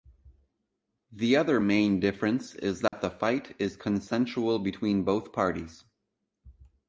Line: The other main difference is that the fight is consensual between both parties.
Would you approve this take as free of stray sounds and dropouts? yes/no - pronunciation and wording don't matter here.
no